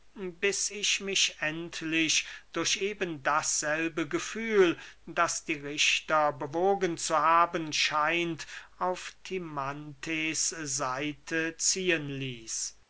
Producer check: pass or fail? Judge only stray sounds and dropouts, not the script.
pass